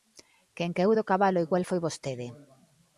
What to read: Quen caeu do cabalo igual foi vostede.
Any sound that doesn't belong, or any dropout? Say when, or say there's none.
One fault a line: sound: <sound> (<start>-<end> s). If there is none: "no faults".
no faults